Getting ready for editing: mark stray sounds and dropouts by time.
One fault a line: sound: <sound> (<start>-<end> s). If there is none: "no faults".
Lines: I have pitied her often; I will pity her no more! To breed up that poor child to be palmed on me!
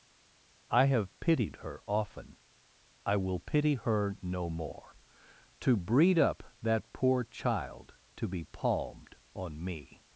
no faults